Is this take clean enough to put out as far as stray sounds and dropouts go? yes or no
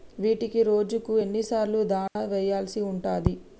no